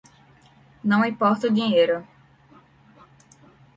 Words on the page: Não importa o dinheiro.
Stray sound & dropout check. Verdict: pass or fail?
pass